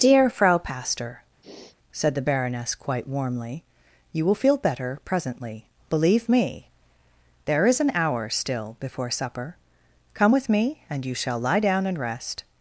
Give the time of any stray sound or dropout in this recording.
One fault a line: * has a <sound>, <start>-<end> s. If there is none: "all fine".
* has a sniff, 1.4-1.8 s